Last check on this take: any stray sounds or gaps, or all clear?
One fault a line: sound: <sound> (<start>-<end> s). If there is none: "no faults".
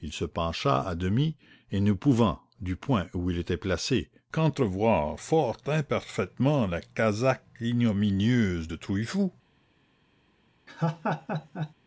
sound: laugh (10.7-11.7 s)